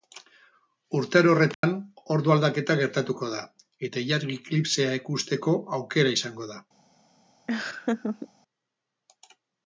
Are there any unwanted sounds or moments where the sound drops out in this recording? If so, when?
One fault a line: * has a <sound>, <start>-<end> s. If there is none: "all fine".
* has a dropout, 1.5-1.6 s
* has a laugh, 7.5-8.3 s